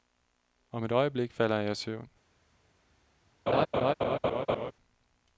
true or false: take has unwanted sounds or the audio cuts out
true